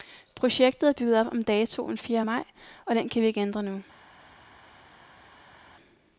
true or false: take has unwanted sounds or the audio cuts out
false